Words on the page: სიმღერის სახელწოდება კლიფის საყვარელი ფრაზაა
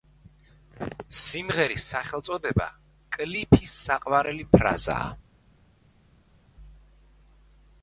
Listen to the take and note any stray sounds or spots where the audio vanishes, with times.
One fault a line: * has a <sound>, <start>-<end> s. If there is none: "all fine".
all fine